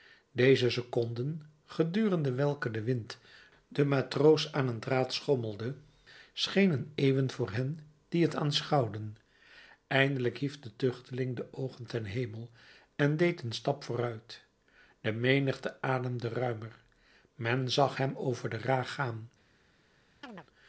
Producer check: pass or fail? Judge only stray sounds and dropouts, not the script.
fail